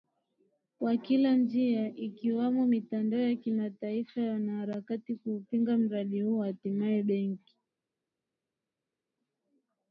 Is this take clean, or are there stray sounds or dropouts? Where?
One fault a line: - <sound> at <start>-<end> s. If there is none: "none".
none